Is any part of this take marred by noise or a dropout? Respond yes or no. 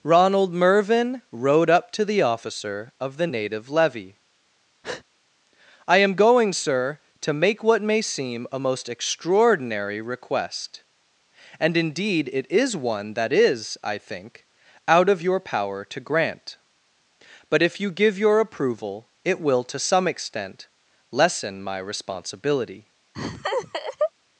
yes